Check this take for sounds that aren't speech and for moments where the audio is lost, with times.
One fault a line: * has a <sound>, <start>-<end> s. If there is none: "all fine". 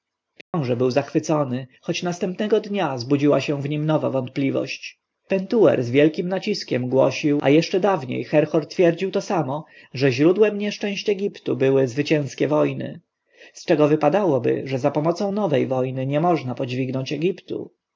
* has a dropout, 0.4-0.5 s